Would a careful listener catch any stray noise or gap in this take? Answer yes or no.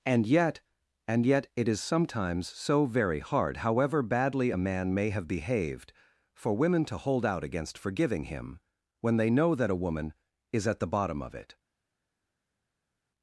no